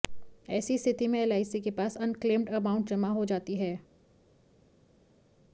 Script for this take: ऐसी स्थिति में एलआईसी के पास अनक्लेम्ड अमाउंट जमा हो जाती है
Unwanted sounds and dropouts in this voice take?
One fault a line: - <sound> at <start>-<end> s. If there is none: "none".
none